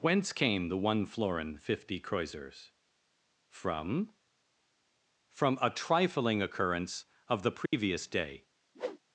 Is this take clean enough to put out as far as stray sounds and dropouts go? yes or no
no